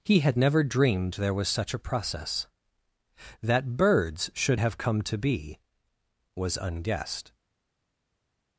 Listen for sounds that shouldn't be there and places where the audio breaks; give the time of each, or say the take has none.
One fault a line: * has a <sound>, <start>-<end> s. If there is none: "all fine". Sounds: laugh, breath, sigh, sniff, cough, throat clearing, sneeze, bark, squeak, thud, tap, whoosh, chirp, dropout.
all fine